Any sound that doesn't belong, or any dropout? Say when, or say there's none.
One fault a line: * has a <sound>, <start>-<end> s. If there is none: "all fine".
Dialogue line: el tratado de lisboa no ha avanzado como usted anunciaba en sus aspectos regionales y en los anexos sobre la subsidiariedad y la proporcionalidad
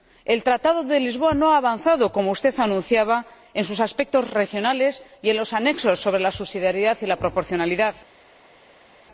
all fine